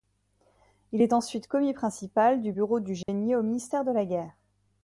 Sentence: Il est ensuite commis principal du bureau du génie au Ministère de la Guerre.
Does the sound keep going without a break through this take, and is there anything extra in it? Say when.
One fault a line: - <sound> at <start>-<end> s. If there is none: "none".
- dropout at 3.0-3.1 s